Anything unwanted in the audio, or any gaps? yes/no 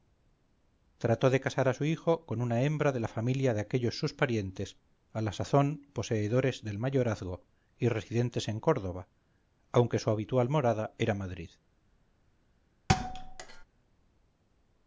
yes